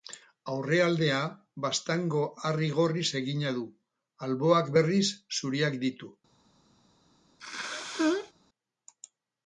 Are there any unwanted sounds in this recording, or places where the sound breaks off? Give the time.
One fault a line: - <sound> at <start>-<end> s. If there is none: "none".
- sneeze at 7.4-8.3 s